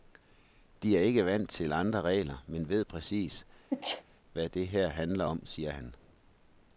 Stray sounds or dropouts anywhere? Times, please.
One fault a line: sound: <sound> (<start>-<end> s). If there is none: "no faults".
sound: sneeze (3.7-4.0 s)